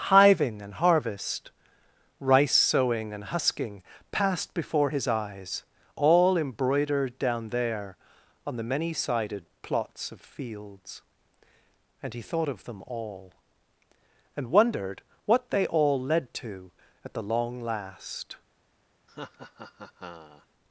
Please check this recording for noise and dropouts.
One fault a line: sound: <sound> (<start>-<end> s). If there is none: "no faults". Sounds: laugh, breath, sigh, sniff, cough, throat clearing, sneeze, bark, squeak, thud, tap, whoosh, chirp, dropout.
sound: laugh (19.1-20.5 s)